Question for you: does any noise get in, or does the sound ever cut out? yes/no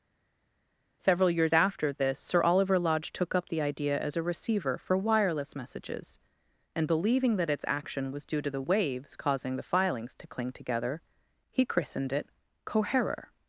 no